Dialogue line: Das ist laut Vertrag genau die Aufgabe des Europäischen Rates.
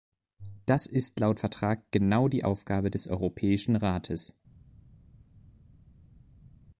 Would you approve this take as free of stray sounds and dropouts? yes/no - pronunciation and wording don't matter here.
yes